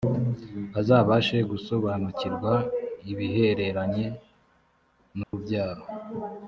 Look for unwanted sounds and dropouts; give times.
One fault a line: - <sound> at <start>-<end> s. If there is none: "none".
- dropout at 5.2-5.3 s